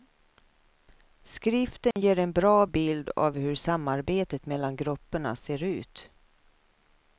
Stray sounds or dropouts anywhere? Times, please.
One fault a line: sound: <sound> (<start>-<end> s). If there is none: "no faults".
sound: dropout (1.9-2.0 s)